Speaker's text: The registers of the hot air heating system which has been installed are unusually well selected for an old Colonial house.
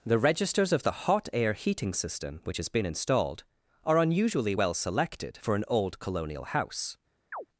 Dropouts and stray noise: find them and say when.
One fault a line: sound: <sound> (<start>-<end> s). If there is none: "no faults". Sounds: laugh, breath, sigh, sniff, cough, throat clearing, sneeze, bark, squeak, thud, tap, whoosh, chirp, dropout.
sound: chirp (7.3-7.5 s)